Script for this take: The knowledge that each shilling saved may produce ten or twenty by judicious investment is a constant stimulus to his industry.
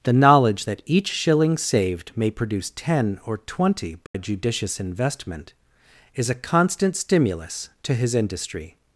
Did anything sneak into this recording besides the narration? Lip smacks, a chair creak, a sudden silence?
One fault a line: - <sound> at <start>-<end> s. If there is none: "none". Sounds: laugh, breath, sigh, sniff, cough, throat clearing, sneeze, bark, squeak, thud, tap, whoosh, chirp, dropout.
- dropout at 4.1-4.1 s